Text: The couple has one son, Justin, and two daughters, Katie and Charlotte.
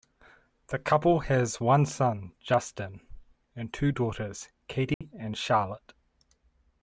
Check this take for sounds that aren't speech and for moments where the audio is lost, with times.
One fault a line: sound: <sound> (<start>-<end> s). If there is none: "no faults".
sound: dropout (4.9-5.0 s)